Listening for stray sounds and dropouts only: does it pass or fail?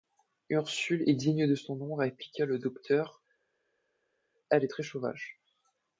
pass